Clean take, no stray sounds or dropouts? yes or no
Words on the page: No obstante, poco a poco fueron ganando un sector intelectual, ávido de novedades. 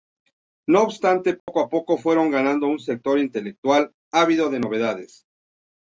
no